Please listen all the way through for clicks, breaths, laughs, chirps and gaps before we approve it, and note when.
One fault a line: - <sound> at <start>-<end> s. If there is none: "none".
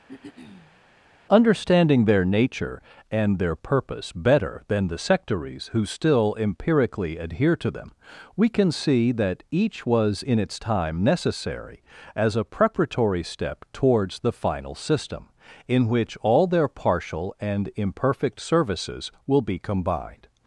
- throat clearing at 0.1-0.8 s